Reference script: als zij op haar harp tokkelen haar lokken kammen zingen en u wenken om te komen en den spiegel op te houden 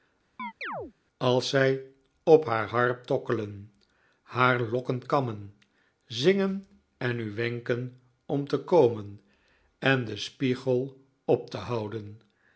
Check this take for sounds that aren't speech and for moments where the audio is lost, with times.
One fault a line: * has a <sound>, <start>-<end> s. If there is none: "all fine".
* has a chirp, 0.4-0.9 s